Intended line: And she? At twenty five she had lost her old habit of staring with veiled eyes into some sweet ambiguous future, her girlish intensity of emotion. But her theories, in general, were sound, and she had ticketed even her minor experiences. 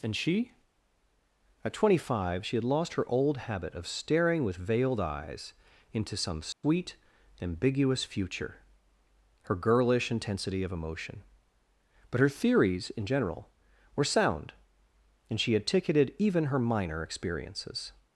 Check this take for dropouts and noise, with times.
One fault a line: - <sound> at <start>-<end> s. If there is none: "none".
- dropout at 6.5-6.6 s